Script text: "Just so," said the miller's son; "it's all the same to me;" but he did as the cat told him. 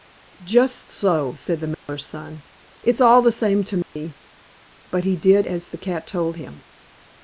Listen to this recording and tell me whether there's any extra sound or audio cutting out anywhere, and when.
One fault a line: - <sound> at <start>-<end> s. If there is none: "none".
- dropout at 1.7-1.9 s
- dropout at 3.8-4.0 s